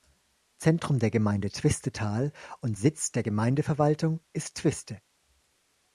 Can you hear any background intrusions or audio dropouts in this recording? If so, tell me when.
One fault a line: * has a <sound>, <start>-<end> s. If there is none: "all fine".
all fine